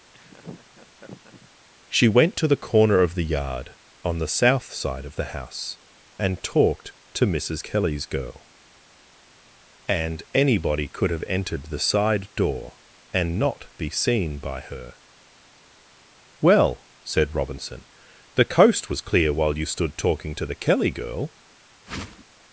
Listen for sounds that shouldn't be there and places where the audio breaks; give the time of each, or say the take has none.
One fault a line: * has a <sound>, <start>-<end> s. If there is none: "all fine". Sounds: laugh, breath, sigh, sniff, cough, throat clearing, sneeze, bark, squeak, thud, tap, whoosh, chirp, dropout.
* has a laugh, 0.1-1.5 s
* has a whoosh, 21.9-22.3 s